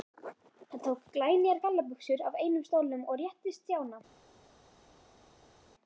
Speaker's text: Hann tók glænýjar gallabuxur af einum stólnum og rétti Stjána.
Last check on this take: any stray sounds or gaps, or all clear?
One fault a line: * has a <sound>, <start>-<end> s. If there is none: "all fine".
all fine